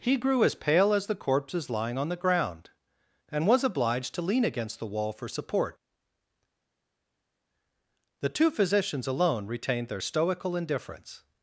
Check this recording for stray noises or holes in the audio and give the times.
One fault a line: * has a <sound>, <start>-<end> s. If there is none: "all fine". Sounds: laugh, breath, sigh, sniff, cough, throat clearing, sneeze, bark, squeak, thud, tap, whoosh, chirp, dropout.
all fine